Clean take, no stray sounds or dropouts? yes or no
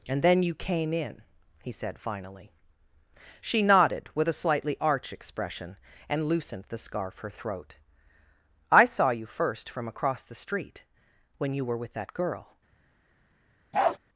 no